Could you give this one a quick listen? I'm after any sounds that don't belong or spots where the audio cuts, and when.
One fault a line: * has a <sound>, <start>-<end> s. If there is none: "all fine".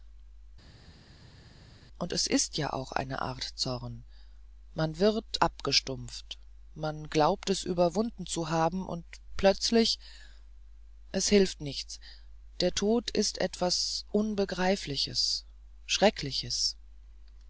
all fine